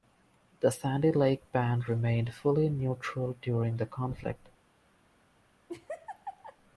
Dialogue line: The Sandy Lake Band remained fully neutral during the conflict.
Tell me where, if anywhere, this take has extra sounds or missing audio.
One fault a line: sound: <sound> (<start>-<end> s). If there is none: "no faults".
sound: laugh (5.7-6.6 s)